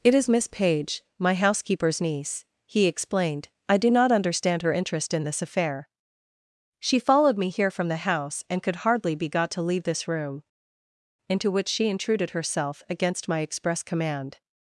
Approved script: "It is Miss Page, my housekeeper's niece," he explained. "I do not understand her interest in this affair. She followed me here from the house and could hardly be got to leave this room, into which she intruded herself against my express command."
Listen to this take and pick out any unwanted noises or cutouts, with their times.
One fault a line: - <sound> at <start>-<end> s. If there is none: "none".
none